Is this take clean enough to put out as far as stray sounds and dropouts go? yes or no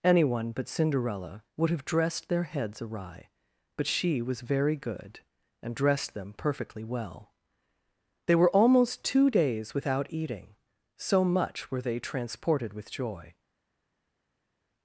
yes